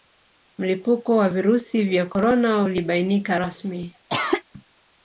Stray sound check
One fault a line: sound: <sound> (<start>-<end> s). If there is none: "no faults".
sound: cough (4.1-4.4 s)